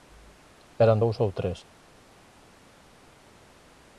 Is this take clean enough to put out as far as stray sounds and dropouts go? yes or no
yes